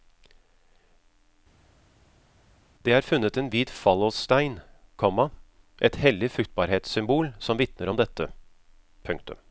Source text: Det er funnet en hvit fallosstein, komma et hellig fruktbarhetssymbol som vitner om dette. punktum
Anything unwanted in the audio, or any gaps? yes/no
no